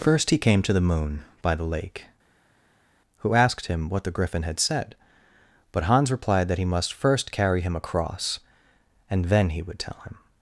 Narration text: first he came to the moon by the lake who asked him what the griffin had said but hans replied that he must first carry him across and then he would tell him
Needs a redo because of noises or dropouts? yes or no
no